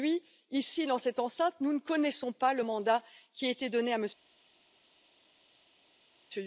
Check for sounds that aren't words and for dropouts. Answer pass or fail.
pass